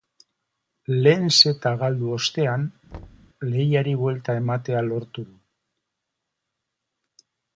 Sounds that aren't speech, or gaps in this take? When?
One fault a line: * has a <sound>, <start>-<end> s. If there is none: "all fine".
* has a thud, 2.9-3.3 s